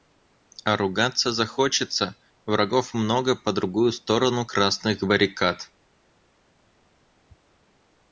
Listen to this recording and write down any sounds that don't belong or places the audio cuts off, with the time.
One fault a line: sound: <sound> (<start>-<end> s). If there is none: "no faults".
no faults